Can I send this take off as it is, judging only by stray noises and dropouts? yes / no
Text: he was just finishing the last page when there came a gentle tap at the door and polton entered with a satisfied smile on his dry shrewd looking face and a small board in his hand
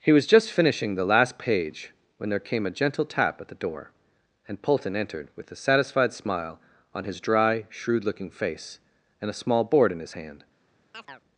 no